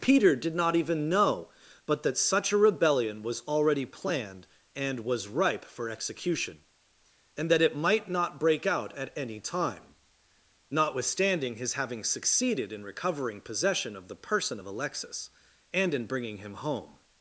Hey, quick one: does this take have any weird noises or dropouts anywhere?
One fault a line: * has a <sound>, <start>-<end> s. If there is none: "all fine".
all fine